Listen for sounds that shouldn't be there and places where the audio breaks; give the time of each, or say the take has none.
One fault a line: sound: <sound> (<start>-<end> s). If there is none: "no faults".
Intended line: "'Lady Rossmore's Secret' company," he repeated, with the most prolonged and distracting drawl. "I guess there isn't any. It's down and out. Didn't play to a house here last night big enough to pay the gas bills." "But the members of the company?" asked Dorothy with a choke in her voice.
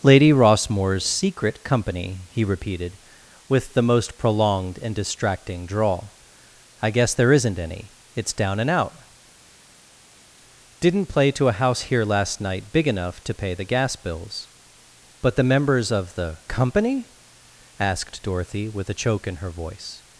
no faults